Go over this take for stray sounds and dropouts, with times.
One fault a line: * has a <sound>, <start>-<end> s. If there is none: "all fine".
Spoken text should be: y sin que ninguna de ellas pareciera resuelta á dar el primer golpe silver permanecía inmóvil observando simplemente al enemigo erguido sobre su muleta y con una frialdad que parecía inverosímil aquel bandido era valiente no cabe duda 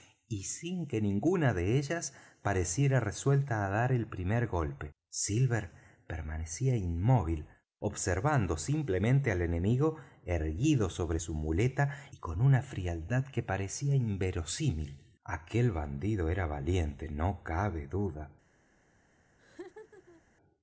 * has a laugh, 19.4-20.2 s